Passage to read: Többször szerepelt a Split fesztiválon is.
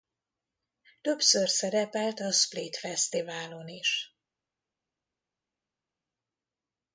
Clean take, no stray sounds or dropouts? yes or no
yes